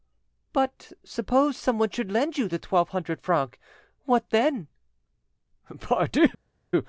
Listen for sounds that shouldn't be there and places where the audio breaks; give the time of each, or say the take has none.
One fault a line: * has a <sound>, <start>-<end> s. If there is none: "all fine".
all fine